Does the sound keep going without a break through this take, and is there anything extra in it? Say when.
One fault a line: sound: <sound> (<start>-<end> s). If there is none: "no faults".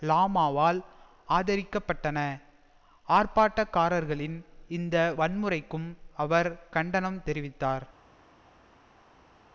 no faults